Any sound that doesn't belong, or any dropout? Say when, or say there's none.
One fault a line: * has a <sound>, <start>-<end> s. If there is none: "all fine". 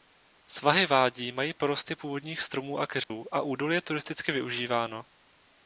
* has a dropout, 3.0-3.1 s